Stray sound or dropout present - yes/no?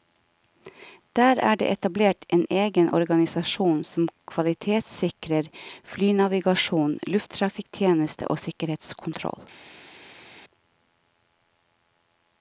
no